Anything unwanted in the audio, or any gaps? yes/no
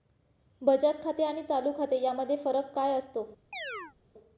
yes